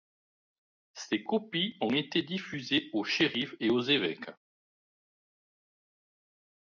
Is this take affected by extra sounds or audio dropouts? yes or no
no